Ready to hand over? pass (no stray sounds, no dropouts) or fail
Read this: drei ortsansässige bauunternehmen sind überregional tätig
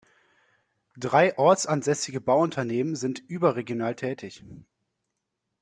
pass